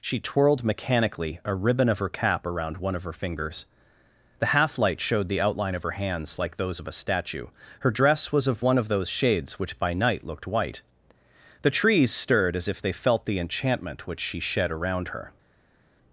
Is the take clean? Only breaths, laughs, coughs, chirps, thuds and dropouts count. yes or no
yes